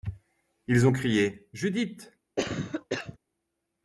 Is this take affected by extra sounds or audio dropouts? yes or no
yes